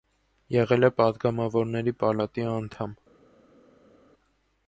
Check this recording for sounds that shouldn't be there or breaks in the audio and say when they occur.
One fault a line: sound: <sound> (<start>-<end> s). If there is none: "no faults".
no faults